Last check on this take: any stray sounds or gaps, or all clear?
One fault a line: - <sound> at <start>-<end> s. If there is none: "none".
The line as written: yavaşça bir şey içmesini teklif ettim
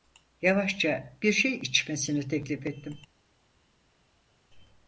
none